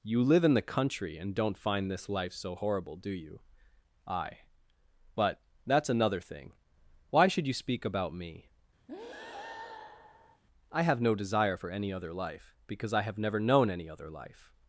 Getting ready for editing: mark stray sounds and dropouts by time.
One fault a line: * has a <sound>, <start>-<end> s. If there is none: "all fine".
* has a breath, 8.9-10.4 s